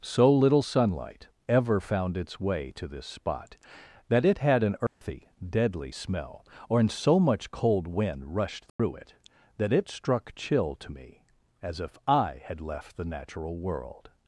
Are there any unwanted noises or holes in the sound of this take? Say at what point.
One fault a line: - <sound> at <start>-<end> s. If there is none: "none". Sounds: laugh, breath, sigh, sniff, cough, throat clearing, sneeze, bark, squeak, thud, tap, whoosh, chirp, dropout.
- dropout at 4.9-5.0 s
- dropout at 8.7-8.8 s